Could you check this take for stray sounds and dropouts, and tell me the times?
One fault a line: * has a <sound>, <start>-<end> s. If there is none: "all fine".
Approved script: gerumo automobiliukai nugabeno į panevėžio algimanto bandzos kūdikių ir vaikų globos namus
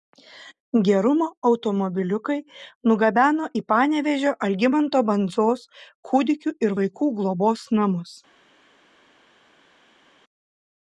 all fine